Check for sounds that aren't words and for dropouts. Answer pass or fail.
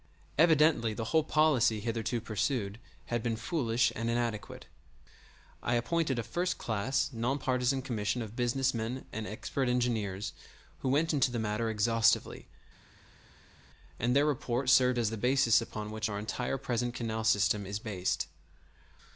pass